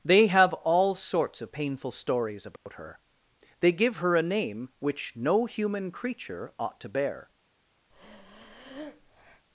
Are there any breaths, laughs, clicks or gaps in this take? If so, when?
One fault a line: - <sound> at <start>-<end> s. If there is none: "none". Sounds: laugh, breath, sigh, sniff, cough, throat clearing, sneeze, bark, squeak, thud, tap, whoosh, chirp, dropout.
- dropout at 2.6-2.7 s
- breath at 7.9-9.5 s